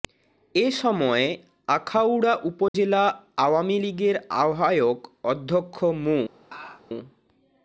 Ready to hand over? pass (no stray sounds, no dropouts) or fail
fail